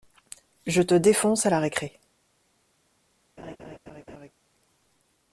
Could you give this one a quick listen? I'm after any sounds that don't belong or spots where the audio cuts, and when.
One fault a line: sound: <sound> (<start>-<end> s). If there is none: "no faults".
sound: laugh (3.4-4.3 s)